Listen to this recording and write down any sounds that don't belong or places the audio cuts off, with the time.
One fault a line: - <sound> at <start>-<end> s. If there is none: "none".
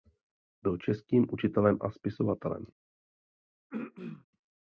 - throat clearing at 3.7-4.3 s